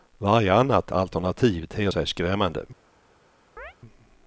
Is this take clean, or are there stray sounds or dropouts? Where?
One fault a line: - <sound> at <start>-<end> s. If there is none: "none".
- chirp at 3.6-3.7 s